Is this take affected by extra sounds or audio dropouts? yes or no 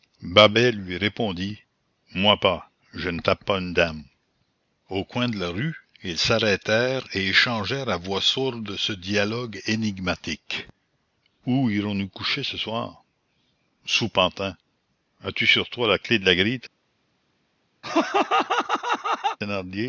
yes